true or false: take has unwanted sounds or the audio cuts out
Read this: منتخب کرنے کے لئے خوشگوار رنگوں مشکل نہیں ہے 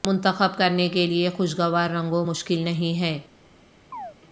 true